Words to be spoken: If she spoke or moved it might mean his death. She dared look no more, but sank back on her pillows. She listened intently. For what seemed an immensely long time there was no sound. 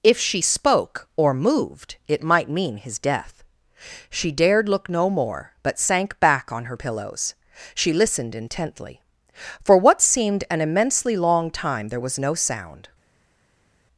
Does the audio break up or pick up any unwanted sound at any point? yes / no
no